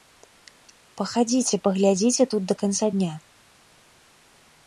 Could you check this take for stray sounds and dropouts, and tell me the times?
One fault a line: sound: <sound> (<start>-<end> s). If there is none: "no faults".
no faults